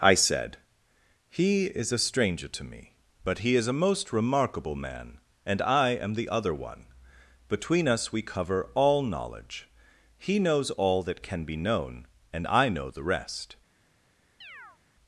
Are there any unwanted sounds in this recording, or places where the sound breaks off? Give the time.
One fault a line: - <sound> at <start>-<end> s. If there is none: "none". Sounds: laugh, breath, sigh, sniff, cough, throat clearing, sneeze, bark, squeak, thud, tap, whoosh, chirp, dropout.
- chirp at 14.4-14.8 s